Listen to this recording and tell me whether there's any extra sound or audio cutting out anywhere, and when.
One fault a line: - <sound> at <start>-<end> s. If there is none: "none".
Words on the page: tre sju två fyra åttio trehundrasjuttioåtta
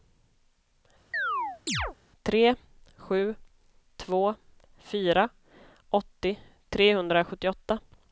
- chirp at 1.1-2.0 s